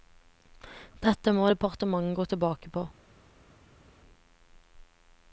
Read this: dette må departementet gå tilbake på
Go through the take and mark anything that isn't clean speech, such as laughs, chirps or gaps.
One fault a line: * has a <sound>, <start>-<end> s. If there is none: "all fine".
all fine